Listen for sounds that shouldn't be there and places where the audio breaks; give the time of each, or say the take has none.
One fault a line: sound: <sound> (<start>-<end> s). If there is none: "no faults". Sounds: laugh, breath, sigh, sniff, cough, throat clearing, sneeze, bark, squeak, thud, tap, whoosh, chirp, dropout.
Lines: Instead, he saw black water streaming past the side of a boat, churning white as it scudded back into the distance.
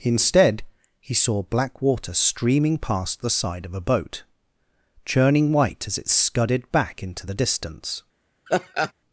sound: laugh (8.5-8.9 s)